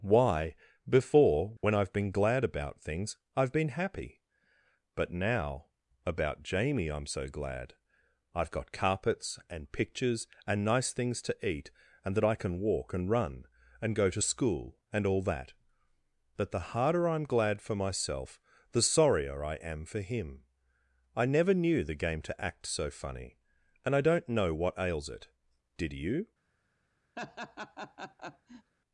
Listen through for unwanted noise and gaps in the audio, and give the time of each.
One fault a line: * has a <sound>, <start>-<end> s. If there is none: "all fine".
* has a dropout, 1.6-1.6 s
* has a laugh, 27.2-28.7 s